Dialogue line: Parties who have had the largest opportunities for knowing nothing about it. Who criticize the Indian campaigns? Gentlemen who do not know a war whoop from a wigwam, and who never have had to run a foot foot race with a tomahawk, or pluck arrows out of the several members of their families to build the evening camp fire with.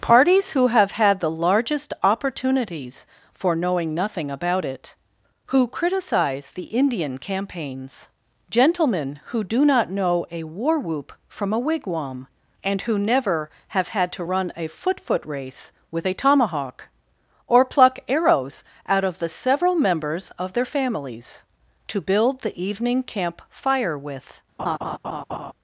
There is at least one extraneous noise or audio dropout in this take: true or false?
true